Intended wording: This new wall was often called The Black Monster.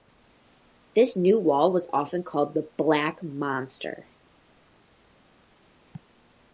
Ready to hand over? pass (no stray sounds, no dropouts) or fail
pass